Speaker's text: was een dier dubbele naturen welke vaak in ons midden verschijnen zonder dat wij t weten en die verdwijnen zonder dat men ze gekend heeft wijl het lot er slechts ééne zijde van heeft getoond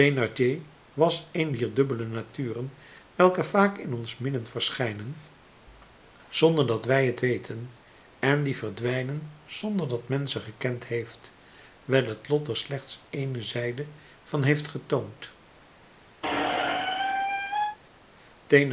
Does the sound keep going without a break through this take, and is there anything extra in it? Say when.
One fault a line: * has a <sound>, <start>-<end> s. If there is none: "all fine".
* has a squeak, 16.2-17.8 s